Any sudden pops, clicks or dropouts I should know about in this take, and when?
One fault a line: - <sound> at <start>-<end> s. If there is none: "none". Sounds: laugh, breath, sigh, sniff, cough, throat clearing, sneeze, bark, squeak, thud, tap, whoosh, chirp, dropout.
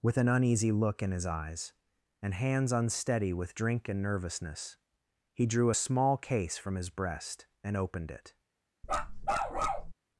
- bark at 8.8-9.9 s